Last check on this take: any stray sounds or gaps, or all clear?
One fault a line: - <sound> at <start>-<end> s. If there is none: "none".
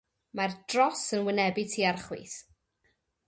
none